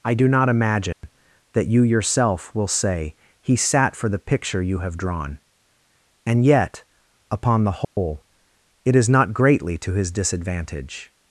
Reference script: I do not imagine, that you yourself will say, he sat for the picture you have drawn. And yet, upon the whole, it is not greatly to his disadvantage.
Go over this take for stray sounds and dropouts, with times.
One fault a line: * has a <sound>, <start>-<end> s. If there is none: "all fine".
* has a dropout, 0.9-1.0 s
* has a dropout, 7.8-8.0 s